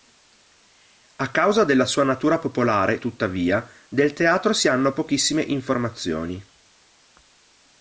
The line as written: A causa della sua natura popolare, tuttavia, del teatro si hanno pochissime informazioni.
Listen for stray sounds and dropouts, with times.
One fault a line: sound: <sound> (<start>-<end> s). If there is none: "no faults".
no faults